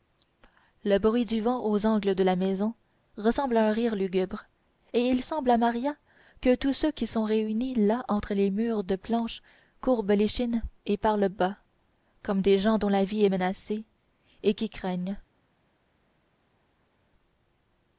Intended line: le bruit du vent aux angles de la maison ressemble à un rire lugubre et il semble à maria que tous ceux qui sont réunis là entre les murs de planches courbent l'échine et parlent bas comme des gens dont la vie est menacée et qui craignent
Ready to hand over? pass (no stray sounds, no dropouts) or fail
pass